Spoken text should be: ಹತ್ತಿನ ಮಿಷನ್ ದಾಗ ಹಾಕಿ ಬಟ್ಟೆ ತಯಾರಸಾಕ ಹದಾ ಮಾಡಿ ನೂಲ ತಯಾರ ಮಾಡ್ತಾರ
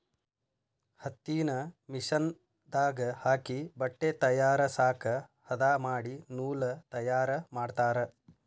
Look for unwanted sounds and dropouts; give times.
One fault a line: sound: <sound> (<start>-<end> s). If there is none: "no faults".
no faults